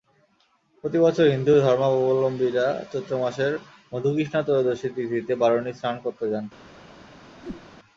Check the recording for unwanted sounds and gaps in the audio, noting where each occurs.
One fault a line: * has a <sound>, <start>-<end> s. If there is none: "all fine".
* has a whoosh, 7.4-7.7 s